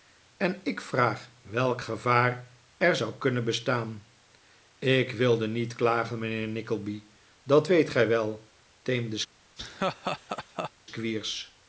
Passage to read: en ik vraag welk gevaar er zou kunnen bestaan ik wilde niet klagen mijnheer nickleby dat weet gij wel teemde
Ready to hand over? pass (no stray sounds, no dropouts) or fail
fail